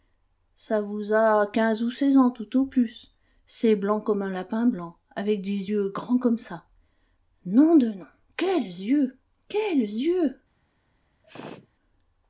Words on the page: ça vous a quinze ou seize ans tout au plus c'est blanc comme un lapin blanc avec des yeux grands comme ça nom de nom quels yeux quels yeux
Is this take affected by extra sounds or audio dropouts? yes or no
yes